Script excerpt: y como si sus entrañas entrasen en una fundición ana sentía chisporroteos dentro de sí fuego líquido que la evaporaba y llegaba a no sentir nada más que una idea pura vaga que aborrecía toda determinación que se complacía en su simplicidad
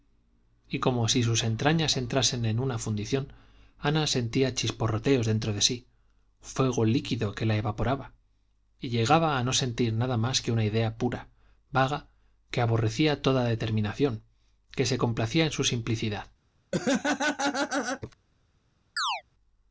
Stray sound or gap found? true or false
true